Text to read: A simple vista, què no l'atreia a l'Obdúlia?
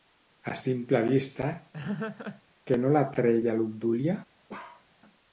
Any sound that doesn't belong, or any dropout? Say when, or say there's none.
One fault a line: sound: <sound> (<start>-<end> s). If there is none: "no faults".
sound: laugh (1.7-2.4 s)
sound: bark (4.5-4.9 s)